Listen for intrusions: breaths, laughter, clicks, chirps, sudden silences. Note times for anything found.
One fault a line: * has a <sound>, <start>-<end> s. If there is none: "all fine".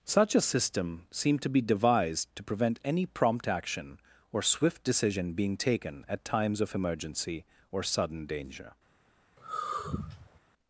* has a sigh, 9.4-10.4 s